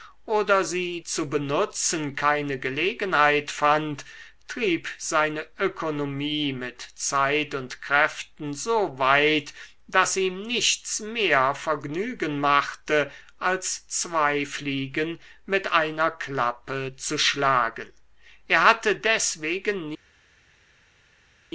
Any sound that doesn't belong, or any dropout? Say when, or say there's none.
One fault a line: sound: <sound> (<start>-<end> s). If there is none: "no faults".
no faults